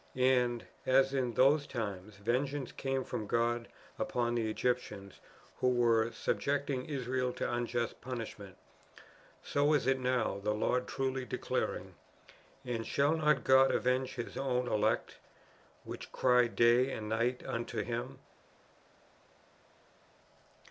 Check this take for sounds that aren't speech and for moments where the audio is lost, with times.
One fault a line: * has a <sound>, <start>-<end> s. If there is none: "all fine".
all fine